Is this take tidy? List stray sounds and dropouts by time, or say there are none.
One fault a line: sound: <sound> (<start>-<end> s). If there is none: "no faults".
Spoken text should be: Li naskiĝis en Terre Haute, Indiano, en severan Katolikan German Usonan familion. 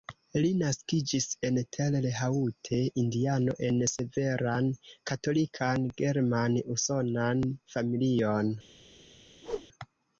sound: whoosh (9.4-9.7 s)